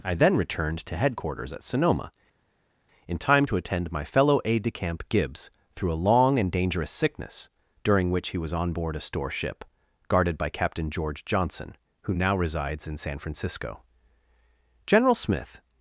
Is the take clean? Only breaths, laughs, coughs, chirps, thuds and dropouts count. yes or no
yes